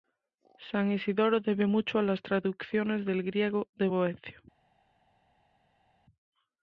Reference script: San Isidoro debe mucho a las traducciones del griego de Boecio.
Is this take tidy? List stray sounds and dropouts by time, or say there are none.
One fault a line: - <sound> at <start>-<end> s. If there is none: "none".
none